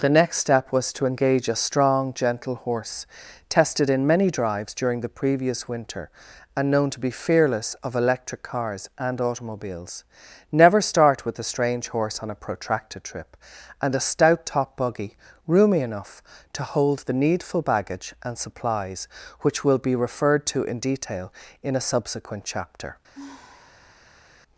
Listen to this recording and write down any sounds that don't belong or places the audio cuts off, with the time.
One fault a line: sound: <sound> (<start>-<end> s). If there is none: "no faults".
sound: sigh (23.1-24.2 s)